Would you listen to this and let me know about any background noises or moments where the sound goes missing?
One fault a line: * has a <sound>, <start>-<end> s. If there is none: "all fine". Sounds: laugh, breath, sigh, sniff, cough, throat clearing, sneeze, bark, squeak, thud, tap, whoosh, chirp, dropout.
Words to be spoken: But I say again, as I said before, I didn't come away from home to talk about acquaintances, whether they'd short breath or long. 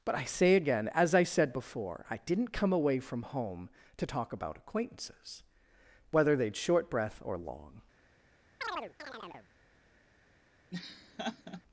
* has a chirp, 8.6-9.5 s
* has a laugh, 10.7-11.6 s